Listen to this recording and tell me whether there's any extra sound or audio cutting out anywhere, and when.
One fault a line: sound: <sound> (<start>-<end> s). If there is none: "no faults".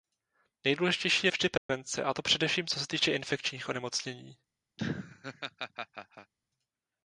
sound: dropout (1.6-1.7 s)
sound: laugh (4.8-6.3 s)